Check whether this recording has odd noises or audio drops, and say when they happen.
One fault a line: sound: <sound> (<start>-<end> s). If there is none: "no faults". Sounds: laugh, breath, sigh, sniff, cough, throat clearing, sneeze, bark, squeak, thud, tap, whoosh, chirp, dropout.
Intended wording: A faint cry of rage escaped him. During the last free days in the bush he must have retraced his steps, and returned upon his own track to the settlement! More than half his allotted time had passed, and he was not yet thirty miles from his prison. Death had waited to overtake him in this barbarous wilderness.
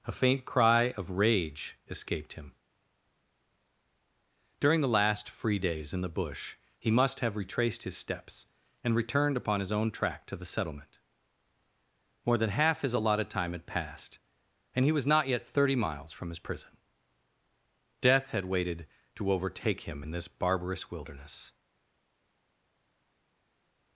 no faults